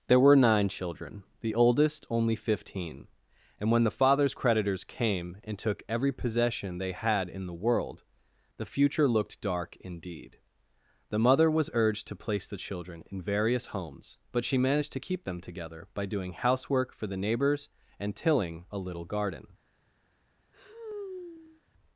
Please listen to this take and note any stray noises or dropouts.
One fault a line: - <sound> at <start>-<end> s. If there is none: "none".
- sigh at 20.5-21.6 s